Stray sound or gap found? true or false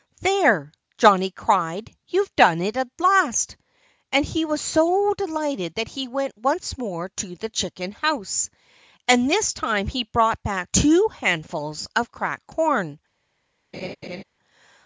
true